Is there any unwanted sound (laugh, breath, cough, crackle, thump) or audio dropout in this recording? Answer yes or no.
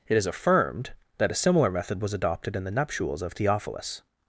no